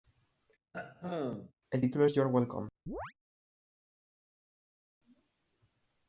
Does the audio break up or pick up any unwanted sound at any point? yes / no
yes